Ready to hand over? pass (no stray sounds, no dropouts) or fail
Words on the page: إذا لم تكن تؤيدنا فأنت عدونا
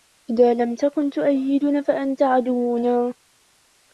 pass